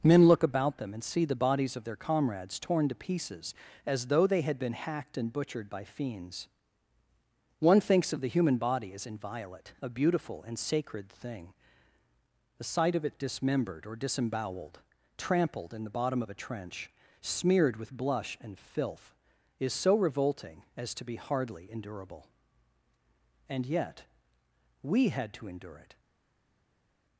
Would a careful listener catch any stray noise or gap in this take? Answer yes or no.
no